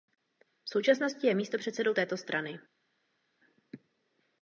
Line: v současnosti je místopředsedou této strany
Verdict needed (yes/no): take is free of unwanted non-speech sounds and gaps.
yes